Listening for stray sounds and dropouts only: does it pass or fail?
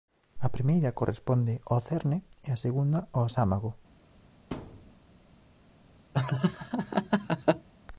fail